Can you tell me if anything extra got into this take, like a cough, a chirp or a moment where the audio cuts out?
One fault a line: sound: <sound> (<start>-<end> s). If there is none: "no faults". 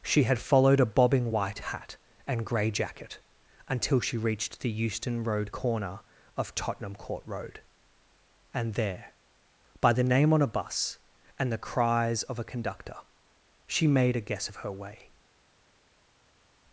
no faults